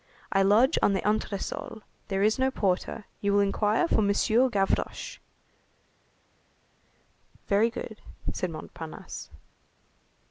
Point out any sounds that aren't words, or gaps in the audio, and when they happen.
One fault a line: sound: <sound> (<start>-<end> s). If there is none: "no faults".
no faults